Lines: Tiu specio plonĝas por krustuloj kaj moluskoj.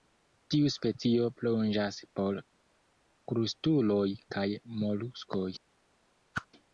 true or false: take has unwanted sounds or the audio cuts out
true